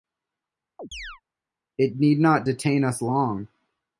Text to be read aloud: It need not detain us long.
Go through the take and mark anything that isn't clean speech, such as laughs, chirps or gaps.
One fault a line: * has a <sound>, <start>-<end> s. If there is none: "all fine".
* has a chirp, 0.8-1.2 s